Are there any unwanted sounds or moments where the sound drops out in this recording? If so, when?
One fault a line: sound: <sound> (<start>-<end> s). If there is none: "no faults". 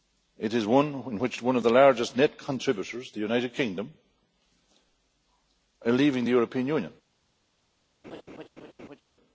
sound: laugh (8.0-9.0 s)